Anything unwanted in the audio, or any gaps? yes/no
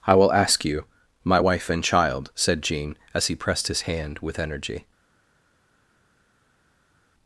no